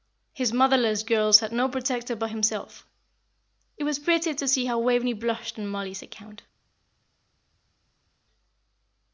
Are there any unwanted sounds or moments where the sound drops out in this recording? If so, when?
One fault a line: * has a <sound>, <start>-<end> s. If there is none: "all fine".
all fine